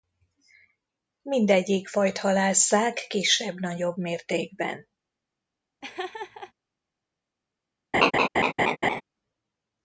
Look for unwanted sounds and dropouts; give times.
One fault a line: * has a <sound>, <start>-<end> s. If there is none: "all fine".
* has a laugh, 5.8-6.5 s
* has a laugh, 7.9-9.0 s